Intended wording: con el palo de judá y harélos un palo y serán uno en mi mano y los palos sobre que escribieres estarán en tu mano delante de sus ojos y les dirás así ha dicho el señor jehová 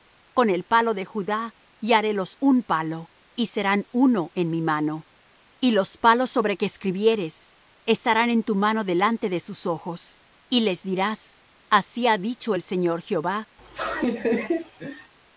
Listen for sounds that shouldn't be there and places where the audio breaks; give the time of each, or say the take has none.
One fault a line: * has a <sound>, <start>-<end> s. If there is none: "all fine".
* has a laugh, 13.6-15.1 s